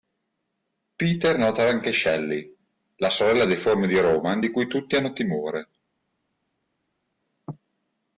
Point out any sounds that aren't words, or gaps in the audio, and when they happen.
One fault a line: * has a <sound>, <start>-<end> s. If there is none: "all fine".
all fine